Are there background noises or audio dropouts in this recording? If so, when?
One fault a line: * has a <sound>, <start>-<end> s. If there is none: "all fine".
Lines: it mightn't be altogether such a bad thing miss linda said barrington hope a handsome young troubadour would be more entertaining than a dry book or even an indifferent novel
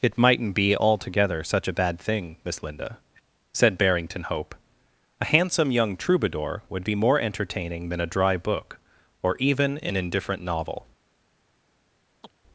* has a chirp, 12.2-12.3 s